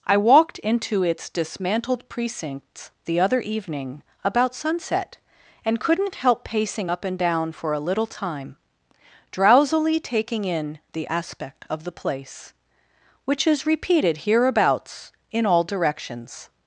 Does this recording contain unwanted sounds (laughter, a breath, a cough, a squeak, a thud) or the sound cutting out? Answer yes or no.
no